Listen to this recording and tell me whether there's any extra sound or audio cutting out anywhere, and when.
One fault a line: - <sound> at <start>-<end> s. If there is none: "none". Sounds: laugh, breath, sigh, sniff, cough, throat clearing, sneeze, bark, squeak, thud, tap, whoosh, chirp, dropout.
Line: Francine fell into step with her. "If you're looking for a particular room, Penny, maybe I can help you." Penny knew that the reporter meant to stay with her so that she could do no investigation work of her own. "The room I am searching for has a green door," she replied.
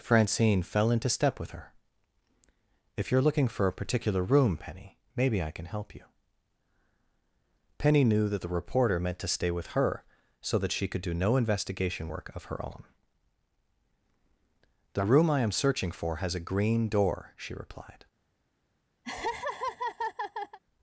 - laugh at 19.0-20.6 s